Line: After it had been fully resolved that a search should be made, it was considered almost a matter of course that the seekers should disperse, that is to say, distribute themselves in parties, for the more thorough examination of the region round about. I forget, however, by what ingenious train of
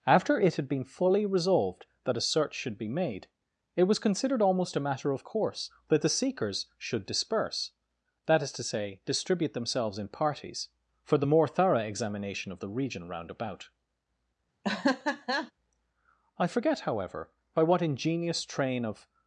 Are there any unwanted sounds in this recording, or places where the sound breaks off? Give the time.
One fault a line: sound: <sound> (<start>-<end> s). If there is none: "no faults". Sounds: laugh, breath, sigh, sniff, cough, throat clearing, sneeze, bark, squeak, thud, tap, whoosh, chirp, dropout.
sound: laugh (14.6-15.5 s)